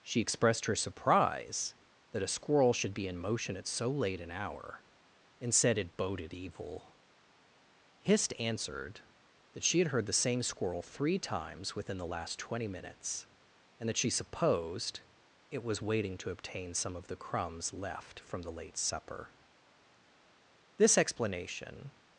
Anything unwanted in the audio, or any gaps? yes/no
no